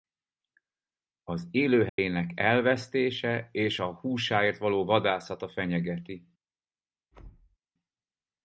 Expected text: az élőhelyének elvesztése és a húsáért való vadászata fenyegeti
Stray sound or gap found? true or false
true